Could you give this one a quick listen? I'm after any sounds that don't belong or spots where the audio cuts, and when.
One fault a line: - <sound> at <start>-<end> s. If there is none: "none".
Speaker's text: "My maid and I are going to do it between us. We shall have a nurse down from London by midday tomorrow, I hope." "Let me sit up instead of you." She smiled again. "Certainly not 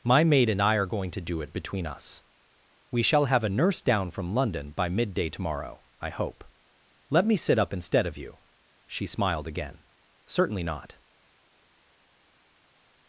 none